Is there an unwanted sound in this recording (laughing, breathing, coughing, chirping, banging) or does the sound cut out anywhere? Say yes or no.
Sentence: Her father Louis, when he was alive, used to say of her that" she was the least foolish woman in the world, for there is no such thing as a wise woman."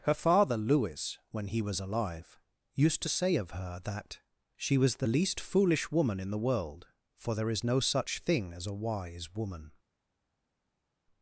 no